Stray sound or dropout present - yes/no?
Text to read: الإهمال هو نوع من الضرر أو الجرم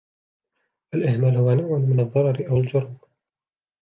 no